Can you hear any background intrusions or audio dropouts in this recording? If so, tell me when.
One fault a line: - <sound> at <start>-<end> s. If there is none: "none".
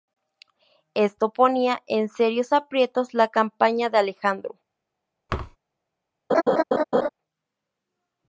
- thud at 5.3-5.6 s
- laugh at 6.3-7.1 s